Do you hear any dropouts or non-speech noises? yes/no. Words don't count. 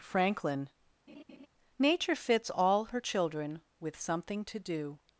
yes